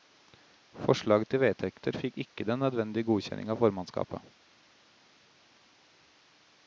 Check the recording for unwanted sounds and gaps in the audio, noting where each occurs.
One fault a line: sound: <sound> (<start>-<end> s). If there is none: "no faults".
no faults